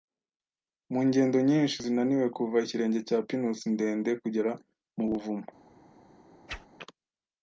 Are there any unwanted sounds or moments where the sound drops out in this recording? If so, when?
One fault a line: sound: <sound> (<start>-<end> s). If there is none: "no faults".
sound: whoosh (6.5-6.7 s)